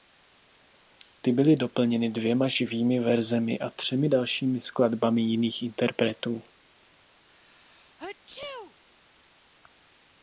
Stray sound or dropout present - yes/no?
yes